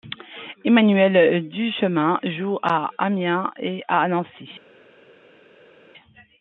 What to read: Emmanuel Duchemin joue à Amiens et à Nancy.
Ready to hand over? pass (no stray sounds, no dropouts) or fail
pass